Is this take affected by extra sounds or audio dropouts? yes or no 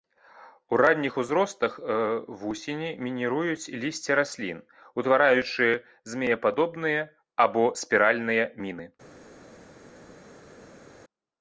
no